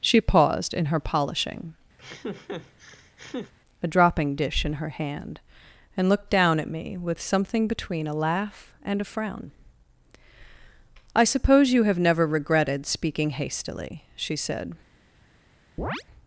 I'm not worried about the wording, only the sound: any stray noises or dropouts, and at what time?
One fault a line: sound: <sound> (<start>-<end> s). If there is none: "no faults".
sound: laugh (2.0-3.5 s)
sound: chirp (15.8-16.0 s)